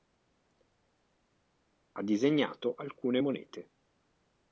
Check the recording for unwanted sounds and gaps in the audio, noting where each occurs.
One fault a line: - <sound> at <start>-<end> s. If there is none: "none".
none